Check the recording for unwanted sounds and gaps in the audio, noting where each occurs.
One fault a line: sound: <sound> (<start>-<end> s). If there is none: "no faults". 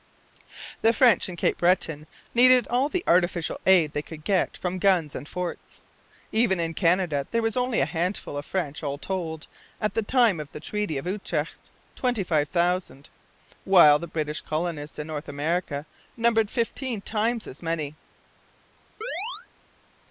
sound: chirp (19.0-19.5 s)